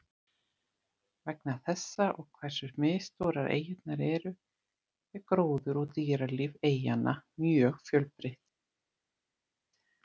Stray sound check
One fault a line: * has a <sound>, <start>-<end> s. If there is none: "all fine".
all fine